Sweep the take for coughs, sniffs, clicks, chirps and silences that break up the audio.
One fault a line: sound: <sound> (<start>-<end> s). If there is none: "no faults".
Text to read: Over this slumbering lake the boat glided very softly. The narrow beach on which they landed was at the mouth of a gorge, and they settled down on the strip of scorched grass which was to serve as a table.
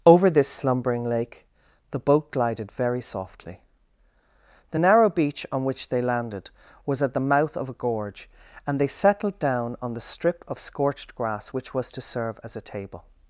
no faults